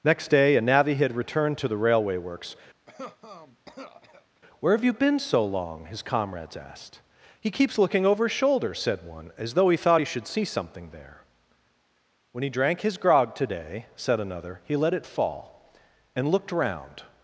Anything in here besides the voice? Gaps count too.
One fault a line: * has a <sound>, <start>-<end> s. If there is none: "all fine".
* has a cough, 2.9-4.4 s